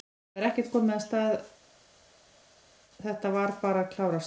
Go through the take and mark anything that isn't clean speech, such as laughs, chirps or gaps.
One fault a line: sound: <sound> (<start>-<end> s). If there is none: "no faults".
no faults